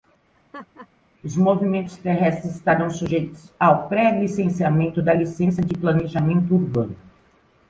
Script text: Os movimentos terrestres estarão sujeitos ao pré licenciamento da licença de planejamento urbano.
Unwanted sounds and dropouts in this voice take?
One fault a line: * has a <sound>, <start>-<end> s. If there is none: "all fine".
* has a laugh, 0.3-0.9 s